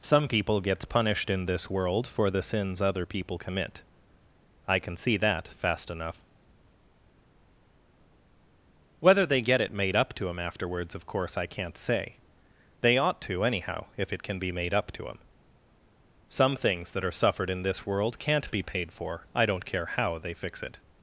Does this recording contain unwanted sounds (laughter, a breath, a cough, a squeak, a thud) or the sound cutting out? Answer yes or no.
no